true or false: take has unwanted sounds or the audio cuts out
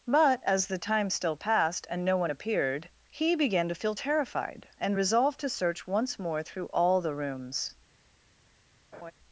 true